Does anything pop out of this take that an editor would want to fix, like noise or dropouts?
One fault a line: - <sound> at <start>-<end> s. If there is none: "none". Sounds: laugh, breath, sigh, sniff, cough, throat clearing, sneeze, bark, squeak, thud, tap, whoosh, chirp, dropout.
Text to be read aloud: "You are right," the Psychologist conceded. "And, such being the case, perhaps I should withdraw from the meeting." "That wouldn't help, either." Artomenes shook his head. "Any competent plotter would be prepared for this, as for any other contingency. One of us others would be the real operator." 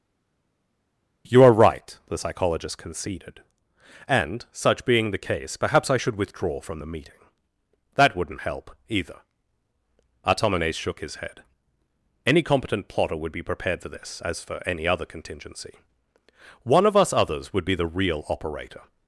none